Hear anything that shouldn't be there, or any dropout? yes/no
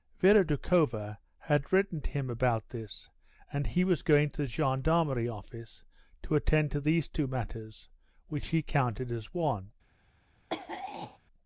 yes